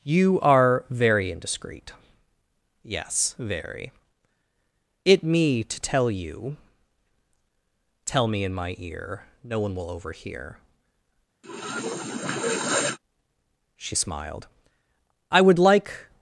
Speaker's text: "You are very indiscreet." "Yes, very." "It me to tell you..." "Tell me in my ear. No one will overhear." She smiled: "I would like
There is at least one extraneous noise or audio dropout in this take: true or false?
true